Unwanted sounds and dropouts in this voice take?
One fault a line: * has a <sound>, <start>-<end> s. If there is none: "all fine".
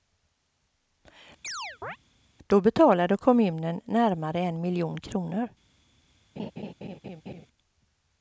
* has a chirp, 1.4-2.0 s
* has a laugh, 6.4-7.5 s